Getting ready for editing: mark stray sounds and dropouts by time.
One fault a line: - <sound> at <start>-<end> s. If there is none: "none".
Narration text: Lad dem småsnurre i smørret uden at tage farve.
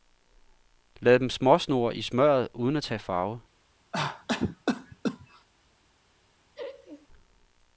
- cough at 3.9-5.5 s
- laugh at 6.5-7.1 s